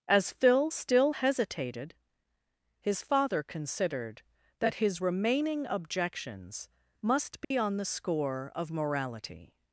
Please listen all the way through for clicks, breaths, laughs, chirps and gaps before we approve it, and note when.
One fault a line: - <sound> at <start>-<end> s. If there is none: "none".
- dropout at 7.4-7.5 s